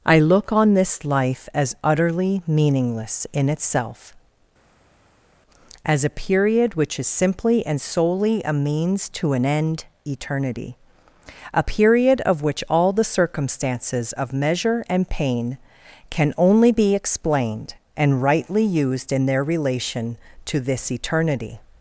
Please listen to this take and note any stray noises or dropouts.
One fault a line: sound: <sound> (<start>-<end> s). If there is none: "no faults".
no faults